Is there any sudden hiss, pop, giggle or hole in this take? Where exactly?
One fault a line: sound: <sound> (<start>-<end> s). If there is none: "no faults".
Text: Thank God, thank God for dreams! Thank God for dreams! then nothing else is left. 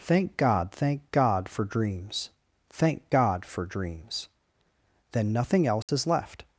sound: dropout (5.8-5.9 s)